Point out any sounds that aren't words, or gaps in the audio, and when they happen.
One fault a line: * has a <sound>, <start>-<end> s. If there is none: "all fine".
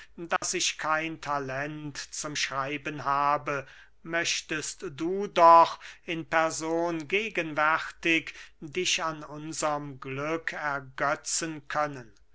* has a dropout, 0.4-0.4 s